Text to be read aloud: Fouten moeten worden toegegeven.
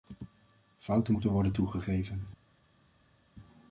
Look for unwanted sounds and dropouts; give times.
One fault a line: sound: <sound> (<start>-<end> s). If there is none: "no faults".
no faults